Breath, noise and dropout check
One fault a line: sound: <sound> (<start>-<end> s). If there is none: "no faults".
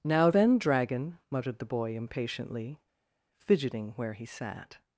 no faults